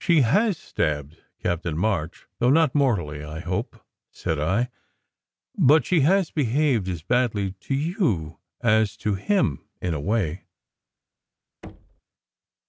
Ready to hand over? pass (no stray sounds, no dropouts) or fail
fail